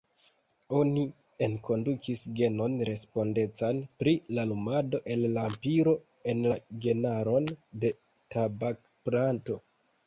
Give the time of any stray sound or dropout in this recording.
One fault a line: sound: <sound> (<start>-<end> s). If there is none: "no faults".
no faults